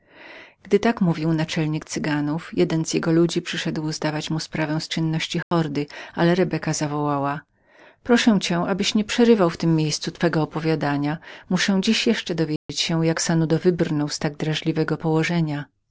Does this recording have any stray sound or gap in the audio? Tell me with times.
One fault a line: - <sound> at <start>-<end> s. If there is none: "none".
- dropout at 5.4-5.5 s
- dropout at 12.6-12.7 s